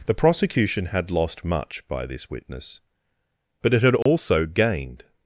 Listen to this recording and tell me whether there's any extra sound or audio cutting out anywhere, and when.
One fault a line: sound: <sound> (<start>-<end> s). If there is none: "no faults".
sound: dropout (4.0-4.1 s)